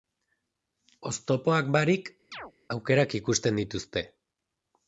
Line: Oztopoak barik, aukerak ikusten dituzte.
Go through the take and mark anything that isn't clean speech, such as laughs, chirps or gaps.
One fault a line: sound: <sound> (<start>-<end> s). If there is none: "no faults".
sound: chirp (2.3-2.5 s)